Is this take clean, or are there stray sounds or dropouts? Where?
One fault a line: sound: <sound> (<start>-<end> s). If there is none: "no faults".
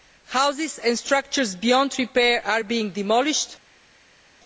no faults